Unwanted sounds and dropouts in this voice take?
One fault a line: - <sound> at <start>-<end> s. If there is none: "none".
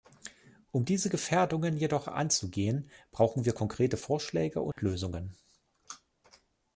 - dropout at 4.7-4.8 s